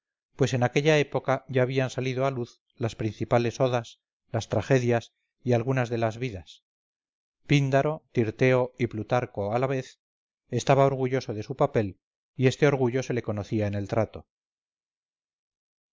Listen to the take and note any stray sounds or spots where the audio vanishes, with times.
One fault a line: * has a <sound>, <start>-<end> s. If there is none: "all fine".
all fine